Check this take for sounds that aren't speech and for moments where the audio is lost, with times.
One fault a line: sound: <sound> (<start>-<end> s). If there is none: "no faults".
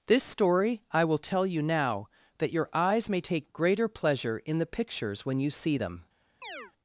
sound: chirp (6.4-6.7 s)